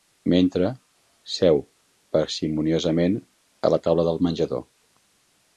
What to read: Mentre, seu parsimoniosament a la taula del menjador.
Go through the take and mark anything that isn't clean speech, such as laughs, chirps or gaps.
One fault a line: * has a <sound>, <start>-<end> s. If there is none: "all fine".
all fine